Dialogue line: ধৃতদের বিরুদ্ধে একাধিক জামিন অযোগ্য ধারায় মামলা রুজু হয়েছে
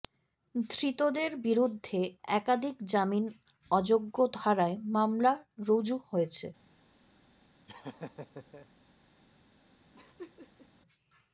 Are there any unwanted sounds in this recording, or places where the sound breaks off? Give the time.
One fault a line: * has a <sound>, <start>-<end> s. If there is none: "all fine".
* has a laugh, 7.7-8.7 s
* has a laugh, 9.9-10.7 s